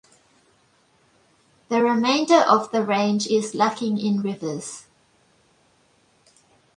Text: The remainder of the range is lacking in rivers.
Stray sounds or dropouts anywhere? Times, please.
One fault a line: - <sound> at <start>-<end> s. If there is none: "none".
none